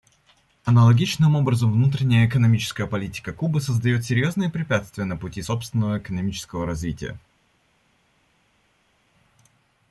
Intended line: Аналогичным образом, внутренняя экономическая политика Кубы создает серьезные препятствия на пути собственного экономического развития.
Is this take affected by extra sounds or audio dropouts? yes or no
no